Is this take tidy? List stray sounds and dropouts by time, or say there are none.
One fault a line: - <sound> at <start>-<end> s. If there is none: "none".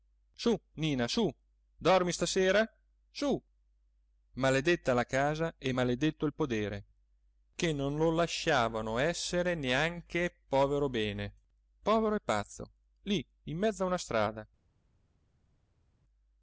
none